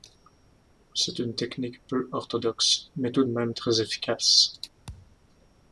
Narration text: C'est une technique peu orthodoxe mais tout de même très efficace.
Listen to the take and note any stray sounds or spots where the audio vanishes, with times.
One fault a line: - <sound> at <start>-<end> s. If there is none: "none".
- thud at 4.9-5.2 s